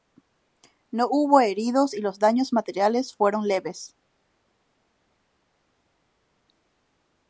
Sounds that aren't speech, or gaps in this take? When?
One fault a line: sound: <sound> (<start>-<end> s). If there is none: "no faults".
no faults